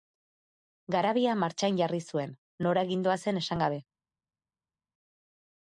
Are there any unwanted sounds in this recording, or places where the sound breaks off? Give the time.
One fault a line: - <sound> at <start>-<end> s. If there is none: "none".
none